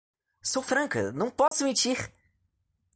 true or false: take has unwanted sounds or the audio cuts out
true